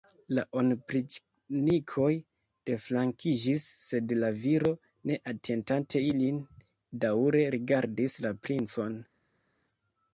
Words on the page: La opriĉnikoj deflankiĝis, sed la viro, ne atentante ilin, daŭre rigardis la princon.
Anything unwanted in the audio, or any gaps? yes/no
no